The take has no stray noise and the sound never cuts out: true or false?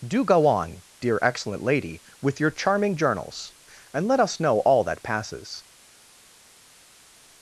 true